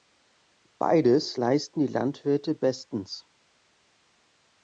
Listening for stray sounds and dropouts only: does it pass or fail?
pass